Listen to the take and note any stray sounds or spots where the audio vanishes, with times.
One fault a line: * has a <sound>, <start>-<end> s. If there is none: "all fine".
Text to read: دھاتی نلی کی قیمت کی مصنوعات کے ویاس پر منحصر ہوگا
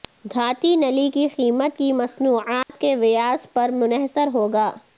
* has a dropout, 2.6-2.7 s